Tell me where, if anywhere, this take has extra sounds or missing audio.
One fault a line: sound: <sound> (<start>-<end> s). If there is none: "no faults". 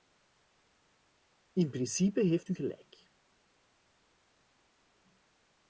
no faults